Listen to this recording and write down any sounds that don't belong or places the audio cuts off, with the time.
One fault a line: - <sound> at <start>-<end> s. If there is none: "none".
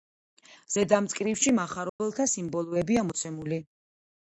- dropout at 1.9-2.0 s